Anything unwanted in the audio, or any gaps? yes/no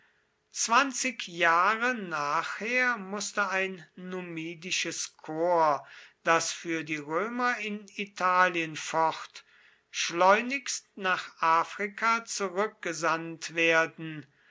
no